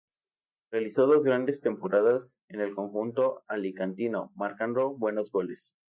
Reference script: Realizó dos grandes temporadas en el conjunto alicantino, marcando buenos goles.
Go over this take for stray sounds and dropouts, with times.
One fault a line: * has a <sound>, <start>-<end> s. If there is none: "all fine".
all fine